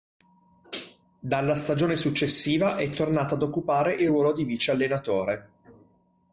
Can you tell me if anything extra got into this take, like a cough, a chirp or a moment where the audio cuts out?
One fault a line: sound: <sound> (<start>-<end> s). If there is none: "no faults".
no faults